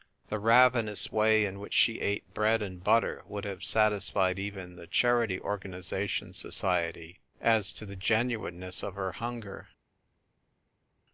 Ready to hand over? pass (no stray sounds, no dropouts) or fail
pass